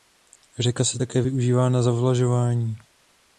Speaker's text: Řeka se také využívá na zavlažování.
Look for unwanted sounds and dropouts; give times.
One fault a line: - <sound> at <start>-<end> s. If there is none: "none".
none